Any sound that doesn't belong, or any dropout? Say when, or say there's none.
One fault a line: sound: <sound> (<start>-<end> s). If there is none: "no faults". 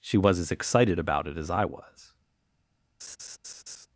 sound: laugh (3.0-3.9 s)